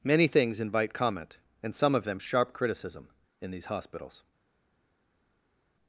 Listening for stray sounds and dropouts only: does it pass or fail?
pass